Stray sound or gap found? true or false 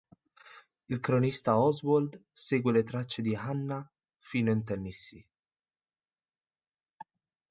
false